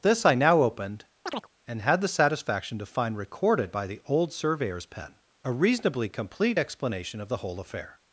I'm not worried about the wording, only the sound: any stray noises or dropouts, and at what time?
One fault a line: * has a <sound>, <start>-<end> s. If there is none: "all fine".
* has a chirp, 1.3-1.5 s